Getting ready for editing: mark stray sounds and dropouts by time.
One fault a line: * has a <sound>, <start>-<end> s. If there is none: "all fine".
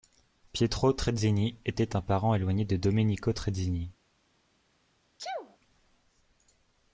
* has a sneeze, 5.2-5.6 s